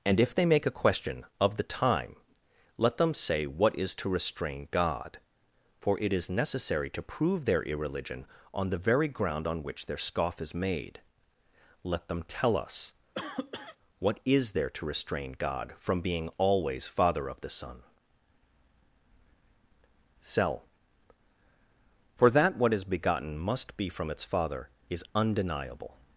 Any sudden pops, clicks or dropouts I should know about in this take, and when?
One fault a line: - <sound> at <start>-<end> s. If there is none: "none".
- cough at 13.1-13.8 s